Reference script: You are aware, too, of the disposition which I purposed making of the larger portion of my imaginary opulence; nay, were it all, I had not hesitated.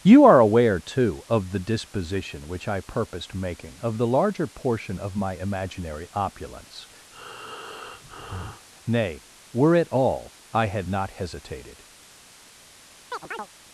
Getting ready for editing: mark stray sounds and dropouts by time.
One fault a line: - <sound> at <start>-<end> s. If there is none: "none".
- breath at 7.1-8.7 s
- chirp at 13.1-13.5 s